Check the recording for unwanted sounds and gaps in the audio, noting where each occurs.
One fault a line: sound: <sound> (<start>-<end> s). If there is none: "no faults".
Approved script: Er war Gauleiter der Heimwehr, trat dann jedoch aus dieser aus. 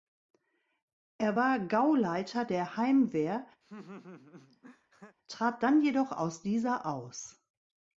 sound: laugh (3.6-5.2 s)